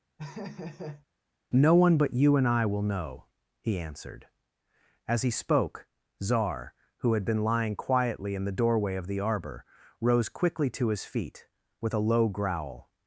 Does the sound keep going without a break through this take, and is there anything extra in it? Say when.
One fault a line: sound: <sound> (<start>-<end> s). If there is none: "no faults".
sound: laugh (0.2-1.1 s)